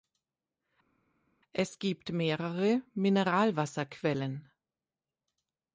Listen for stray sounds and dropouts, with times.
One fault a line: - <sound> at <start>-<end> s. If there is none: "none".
none